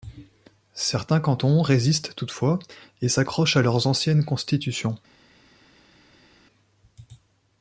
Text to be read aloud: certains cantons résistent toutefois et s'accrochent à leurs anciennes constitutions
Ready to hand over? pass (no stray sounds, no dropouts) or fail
pass